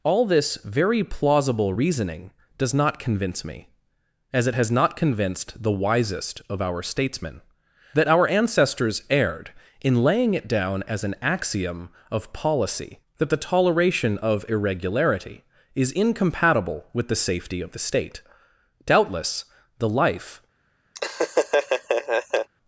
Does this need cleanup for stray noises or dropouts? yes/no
yes